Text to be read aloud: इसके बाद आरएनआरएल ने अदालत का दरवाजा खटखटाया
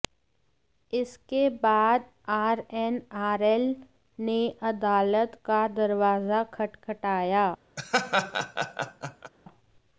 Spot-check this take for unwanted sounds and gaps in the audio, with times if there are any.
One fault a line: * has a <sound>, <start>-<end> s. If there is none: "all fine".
* has a laugh, 7.8-9.3 s